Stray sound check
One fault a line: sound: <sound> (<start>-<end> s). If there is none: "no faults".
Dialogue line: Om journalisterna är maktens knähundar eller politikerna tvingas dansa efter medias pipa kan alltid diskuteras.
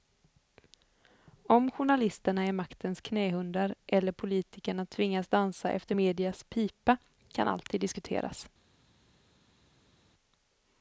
no faults